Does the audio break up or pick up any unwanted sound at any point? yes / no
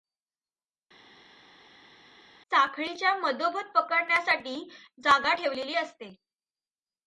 no